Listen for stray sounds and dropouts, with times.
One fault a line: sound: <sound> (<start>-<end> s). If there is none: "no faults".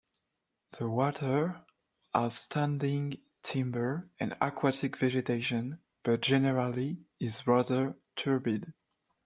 no faults